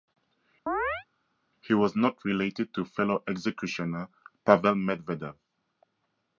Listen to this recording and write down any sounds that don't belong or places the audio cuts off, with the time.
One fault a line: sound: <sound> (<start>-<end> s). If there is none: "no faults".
sound: chirp (0.7-1.1 s)